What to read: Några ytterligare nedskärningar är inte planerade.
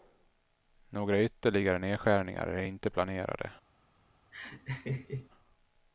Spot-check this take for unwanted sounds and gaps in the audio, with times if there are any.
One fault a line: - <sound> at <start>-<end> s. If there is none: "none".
- laugh at 4.3-5.3 s